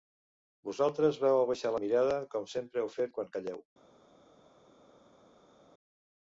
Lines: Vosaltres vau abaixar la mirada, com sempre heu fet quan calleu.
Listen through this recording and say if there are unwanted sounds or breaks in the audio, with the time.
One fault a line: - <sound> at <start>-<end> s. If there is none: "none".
none